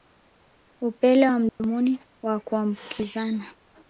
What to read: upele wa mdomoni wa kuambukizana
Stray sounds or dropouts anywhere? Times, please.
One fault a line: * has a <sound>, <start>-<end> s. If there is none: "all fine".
* has a dropout, 1.5-1.6 s